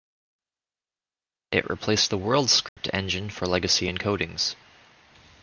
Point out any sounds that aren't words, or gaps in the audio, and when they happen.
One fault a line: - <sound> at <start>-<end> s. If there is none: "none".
- dropout at 2.7-2.8 s